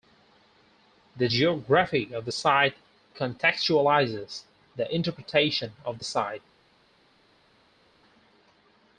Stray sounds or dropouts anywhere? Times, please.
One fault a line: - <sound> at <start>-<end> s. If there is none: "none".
none